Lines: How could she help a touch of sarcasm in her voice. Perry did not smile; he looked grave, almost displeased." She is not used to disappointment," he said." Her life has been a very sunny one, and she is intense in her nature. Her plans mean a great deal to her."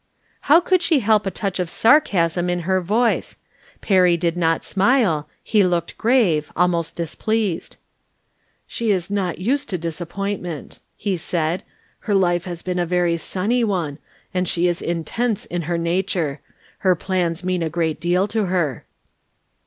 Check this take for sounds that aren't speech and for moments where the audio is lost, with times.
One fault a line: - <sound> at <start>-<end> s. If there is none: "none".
none